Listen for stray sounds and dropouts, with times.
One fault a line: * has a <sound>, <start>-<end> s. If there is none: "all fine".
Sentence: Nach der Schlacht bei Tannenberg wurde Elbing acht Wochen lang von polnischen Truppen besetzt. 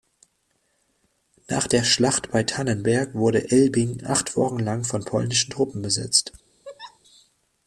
* has a laugh, 6.6-7.0 s